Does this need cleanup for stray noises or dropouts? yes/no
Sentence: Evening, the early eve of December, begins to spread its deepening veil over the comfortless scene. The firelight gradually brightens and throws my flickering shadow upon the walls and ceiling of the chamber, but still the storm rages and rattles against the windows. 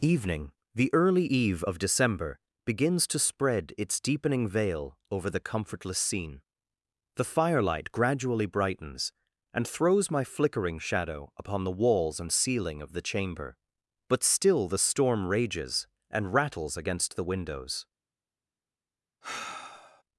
yes